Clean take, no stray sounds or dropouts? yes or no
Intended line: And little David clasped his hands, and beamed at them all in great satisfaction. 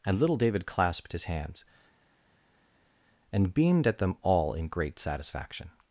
yes